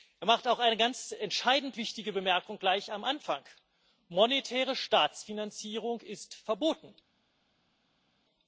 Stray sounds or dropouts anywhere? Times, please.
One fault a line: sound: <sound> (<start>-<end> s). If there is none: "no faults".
no faults